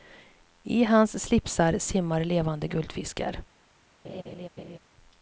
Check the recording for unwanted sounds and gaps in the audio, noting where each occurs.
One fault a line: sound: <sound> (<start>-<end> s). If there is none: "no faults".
sound: laugh (4.0-4.8 s)